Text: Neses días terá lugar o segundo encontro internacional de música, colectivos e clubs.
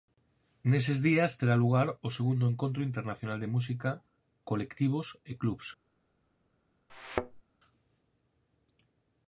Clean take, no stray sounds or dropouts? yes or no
no